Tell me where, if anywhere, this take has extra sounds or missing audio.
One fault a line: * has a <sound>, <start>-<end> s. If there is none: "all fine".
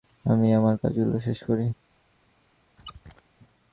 * has a squeak, 2.8-3.2 s